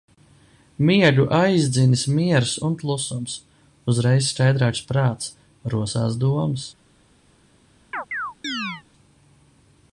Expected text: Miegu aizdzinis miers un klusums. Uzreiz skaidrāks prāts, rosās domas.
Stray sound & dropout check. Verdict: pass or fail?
fail